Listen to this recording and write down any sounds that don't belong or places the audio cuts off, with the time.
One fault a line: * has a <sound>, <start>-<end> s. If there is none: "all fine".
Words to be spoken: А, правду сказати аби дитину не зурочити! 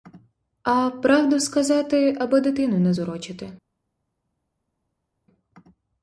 all fine